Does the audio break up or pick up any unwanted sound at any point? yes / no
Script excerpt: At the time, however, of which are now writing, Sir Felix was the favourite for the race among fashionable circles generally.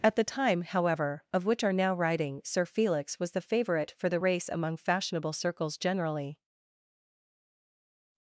no